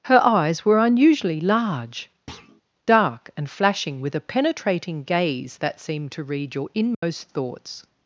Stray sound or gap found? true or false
true